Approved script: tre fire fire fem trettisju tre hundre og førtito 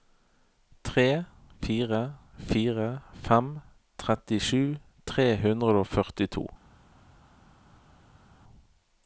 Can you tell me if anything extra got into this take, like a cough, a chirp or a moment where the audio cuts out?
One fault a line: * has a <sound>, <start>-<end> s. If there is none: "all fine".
all fine